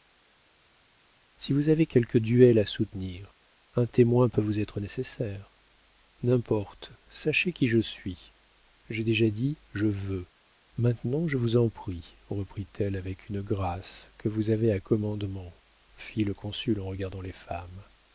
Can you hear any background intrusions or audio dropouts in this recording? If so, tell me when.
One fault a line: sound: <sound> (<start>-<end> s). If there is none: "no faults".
no faults